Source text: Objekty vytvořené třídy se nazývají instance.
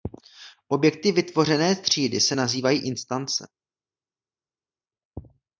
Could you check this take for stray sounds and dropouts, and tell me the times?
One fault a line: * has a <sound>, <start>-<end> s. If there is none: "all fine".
all fine